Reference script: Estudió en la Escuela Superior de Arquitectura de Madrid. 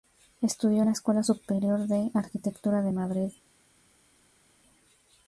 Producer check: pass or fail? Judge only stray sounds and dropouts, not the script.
pass